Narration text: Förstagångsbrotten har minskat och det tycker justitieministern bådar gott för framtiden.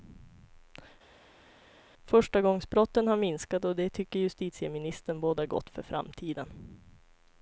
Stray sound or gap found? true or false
false